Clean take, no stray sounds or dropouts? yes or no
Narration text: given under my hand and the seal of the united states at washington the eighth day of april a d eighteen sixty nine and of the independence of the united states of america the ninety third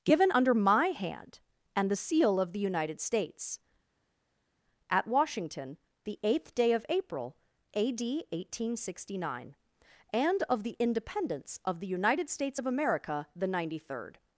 yes